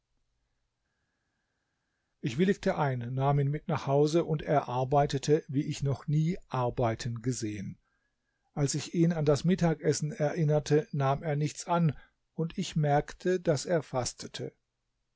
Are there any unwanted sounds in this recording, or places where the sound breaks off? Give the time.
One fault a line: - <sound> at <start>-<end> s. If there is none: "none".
none